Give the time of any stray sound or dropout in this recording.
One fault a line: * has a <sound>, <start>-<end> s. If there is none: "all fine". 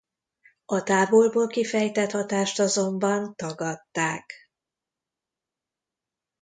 all fine